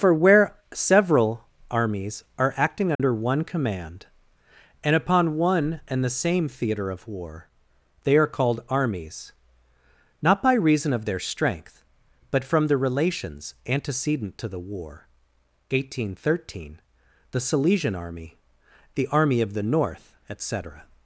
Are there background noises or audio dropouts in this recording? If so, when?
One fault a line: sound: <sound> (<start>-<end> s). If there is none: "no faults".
sound: dropout (2.9-3.0 s)